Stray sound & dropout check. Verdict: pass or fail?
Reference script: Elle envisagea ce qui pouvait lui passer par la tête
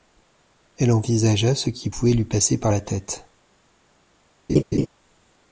fail